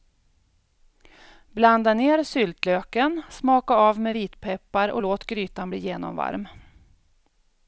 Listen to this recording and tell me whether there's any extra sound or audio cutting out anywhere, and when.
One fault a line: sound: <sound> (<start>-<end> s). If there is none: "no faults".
no faults